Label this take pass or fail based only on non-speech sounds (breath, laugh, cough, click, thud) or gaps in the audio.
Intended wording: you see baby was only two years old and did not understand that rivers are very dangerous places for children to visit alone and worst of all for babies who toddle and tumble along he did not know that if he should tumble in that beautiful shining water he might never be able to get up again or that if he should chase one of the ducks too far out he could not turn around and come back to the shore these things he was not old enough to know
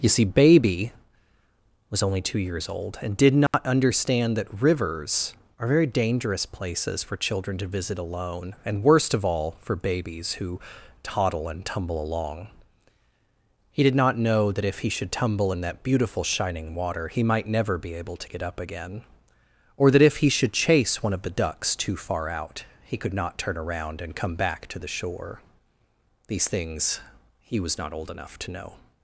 fail